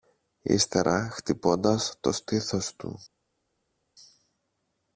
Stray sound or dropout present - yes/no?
no